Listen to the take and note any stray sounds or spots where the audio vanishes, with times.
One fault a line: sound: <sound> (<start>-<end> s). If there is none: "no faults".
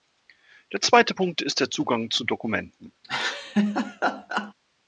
sound: laugh (3.0-4.5 s)